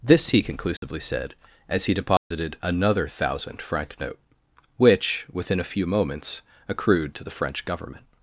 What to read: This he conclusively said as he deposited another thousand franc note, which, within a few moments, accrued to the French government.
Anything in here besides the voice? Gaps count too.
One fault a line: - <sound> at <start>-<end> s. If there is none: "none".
- dropout at 0.8-0.8 s
- dropout at 2.2-2.3 s